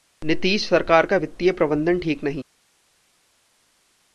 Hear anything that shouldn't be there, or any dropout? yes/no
no